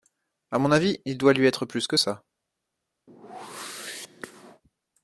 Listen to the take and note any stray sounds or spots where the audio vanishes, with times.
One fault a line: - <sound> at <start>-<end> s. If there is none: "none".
- whoosh at 3.1-4.6 s